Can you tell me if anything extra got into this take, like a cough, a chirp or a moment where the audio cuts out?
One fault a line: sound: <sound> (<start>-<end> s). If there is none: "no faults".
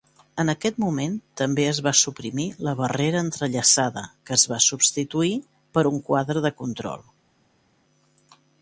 no faults